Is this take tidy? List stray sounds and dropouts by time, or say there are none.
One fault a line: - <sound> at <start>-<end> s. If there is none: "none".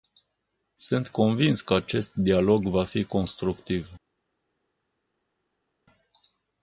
none